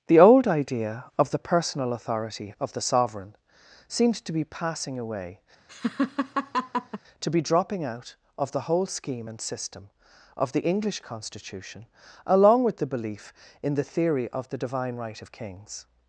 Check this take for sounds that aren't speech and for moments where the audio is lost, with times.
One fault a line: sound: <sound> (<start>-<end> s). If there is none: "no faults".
sound: laugh (5.7-7.0 s)